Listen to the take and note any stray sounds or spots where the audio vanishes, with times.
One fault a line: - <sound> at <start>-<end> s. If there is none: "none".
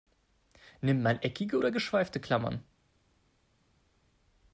none